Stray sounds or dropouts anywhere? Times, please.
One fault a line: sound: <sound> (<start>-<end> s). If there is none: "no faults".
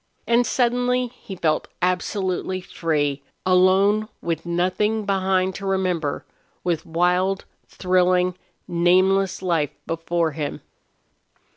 no faults